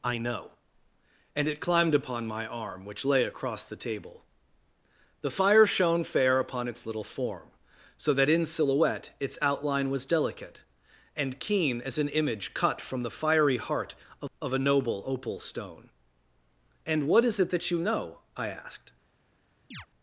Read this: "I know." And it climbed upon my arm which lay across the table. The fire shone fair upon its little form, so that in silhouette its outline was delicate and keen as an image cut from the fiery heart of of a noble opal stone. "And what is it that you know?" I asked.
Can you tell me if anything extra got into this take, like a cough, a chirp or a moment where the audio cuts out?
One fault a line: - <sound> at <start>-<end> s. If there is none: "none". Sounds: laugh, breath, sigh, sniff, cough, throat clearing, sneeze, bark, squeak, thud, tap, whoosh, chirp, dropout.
- chirp at 19.7-19.9 s